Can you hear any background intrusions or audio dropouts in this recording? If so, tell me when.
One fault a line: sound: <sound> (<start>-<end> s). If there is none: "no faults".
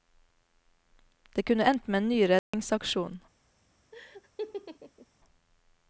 sound: dropout (2.4-2.5 s)
sound: laugh (3.9-5.1 s)